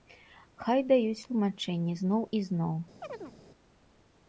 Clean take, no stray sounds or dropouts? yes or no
no